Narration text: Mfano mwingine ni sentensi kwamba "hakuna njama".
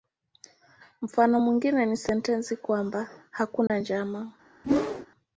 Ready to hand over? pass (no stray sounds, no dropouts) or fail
fail